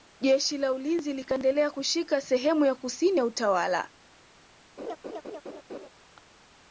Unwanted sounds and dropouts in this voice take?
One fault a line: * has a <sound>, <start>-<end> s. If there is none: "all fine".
* has a laugh, 4.8-5.9 s